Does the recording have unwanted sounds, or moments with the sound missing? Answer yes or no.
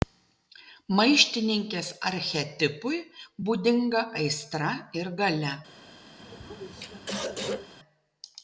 yes